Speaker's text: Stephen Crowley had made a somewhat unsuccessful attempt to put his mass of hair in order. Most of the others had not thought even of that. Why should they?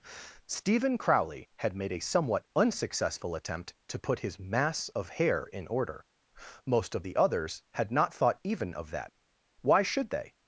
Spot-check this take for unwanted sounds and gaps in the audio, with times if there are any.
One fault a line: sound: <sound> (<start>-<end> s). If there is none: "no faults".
no faults